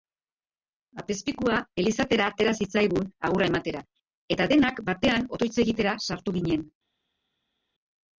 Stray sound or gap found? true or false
false